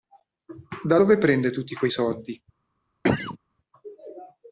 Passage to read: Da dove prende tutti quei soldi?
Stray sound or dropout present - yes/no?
yes